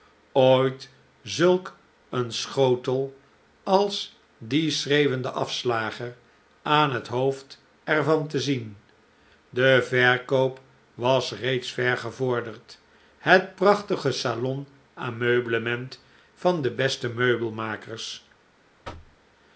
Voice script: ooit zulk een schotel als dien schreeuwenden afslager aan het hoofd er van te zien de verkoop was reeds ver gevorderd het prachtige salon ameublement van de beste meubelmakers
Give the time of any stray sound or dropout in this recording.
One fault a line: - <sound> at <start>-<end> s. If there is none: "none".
- thud at 18.8-19.2 s